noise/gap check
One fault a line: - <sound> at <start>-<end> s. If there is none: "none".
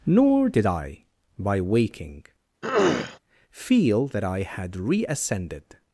- throat clearing at 2.6-3.2 s